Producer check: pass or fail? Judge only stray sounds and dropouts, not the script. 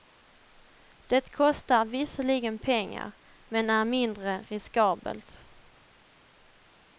pass